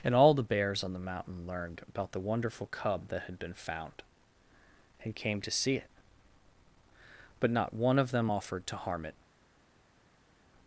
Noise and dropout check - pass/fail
pass